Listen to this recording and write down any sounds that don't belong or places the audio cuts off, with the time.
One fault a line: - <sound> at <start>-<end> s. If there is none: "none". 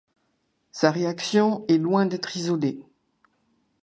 none